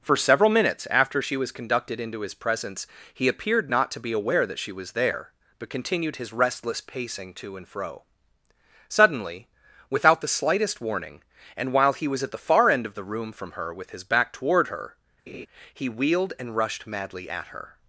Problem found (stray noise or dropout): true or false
true